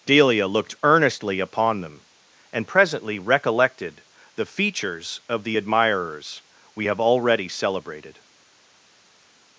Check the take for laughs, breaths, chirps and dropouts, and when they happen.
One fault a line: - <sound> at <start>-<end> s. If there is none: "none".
none